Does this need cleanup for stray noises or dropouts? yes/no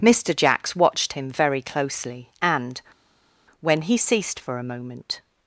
no